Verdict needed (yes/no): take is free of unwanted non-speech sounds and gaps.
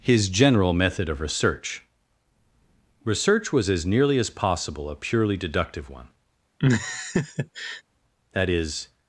no